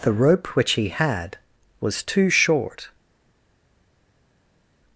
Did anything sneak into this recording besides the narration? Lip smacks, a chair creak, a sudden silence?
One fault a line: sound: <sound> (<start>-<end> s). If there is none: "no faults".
no faults